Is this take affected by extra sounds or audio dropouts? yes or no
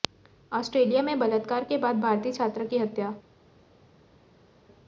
no